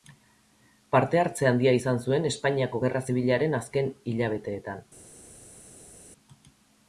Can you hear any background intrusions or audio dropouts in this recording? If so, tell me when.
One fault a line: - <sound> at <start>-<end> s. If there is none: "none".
none